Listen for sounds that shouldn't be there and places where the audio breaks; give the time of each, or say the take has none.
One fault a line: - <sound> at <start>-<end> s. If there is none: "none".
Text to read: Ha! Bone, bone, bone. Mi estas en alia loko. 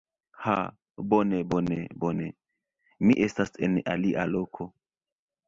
none